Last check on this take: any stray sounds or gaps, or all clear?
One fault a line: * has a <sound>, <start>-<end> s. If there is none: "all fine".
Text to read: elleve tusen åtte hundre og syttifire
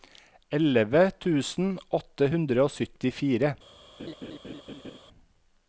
* has a laugh, 4.0-5.0 s